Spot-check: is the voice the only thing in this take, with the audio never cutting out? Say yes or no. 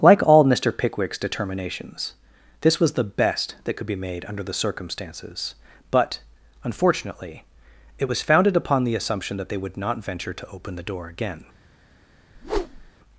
no